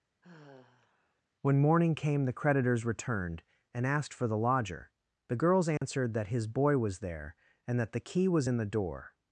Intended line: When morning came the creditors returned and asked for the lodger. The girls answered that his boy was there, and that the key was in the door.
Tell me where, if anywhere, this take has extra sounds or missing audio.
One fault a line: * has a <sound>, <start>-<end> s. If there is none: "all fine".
* has a sigh, 0.2-1.2 s
* has a dropout, 5.8-5.8 s